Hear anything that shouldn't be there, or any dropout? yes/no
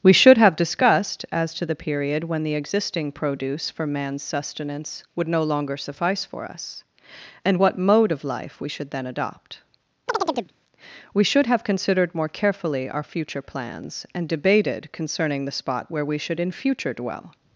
yes